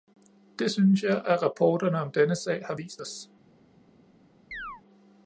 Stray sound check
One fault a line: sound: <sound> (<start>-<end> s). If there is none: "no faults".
sound: chirp (4.5-4.8 s)